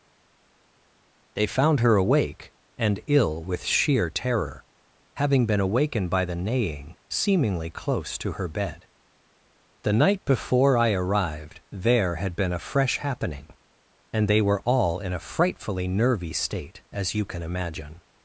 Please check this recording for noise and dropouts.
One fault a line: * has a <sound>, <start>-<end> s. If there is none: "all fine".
all fine